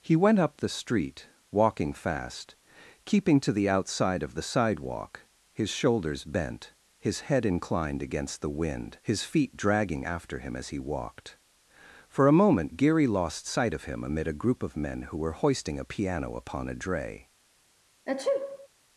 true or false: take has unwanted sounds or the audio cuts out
true